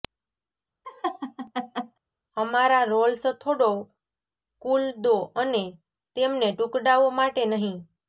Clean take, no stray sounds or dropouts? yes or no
no